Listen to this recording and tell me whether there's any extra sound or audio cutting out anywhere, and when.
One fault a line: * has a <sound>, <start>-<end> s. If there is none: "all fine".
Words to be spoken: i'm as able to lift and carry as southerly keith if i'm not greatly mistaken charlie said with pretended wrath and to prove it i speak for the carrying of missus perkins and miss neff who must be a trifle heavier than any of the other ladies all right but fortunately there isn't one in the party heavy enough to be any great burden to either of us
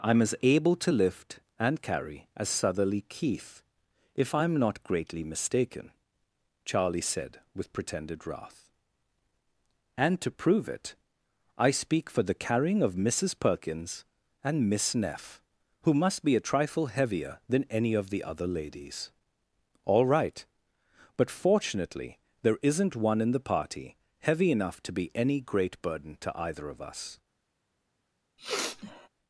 * has a sniff, 28.4-29.1 s